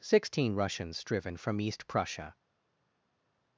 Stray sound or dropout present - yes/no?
no